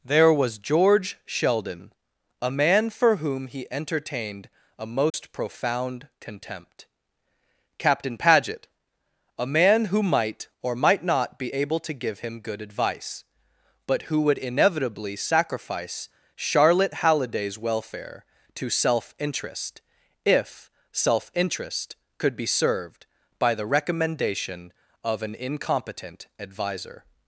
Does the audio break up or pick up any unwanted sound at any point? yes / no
yes